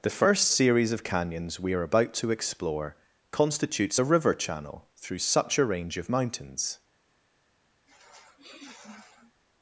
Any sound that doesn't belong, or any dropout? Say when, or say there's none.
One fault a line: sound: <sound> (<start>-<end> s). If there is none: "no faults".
sound: sniff (7.9-9.4 s)